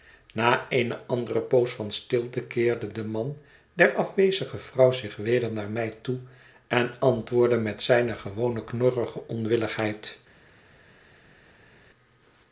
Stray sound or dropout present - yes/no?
no